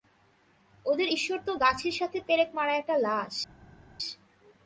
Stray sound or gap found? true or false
false